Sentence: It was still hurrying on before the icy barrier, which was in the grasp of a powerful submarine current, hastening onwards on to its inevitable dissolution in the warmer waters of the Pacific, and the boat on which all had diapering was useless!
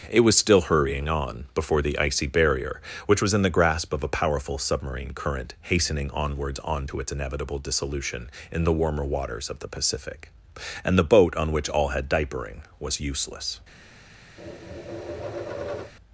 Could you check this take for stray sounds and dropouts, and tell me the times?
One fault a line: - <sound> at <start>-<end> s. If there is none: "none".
- tap at 14.4-15.9 s